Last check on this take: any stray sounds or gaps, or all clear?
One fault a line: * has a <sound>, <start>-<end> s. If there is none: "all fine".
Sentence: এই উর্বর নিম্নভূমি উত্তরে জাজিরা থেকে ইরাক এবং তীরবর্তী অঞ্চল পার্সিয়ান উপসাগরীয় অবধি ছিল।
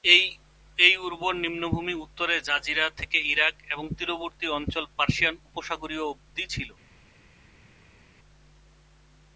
all fine